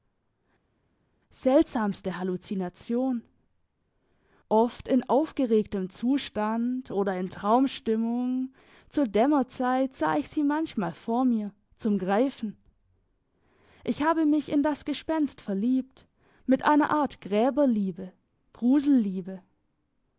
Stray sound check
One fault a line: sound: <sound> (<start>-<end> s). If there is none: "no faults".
no faults